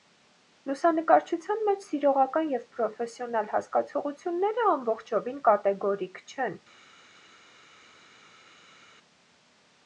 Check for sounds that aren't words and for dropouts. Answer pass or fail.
pass